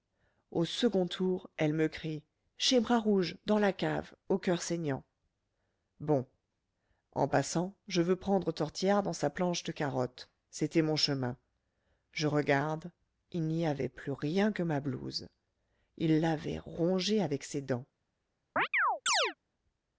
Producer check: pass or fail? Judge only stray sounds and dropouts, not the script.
fail